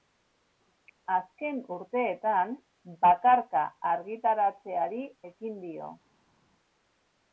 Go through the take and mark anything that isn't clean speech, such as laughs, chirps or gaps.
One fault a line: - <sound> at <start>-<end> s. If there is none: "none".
none